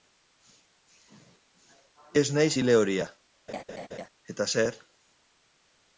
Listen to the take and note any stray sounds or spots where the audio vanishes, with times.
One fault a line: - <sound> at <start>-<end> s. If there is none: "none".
- laugh at 3.5-4.1 s